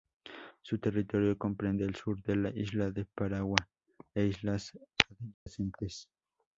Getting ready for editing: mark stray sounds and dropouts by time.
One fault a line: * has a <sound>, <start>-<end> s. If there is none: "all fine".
* has a dropout, 5.3-5.5 s